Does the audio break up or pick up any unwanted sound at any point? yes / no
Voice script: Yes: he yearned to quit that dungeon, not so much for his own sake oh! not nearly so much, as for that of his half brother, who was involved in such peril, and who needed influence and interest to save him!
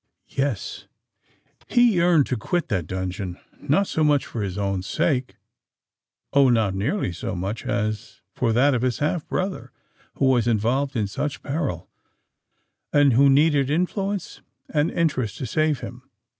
no